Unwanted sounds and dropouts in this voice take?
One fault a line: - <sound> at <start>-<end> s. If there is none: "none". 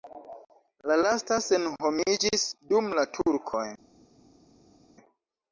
none